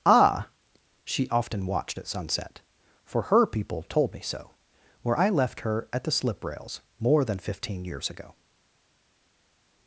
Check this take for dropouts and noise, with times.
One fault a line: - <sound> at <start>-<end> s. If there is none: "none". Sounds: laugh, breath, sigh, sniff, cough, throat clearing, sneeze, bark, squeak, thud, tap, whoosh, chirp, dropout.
none